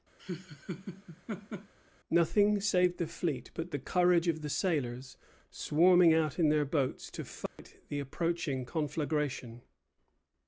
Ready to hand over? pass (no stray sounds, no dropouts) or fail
fail